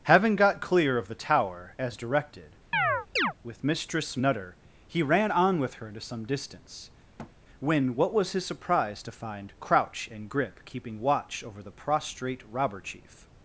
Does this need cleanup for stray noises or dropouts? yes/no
yes